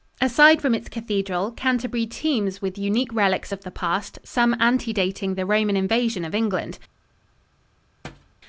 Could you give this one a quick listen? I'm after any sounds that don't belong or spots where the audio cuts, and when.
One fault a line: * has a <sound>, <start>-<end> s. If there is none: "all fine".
* has a thud, 8.0-8.4 s